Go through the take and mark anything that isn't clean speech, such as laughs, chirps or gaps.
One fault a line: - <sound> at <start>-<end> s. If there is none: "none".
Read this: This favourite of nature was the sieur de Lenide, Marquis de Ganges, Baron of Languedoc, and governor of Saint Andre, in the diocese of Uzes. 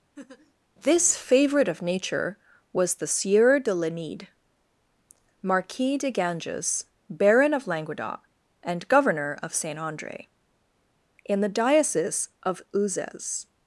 - laugh at 0.2-0.5 s